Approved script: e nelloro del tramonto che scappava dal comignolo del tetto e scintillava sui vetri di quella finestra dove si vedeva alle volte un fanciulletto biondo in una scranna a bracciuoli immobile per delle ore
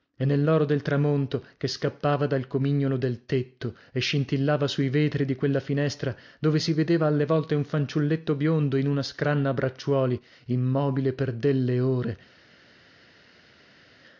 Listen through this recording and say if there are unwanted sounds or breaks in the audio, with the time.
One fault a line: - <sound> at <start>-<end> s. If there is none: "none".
none